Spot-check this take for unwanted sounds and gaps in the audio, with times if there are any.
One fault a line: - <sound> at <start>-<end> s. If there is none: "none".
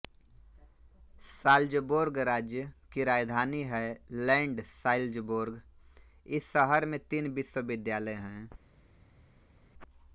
none